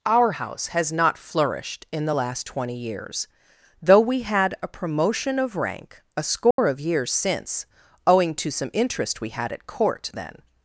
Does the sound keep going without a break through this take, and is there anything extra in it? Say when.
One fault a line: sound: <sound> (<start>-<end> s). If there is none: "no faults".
sound: dropout (6.5-6.6 s)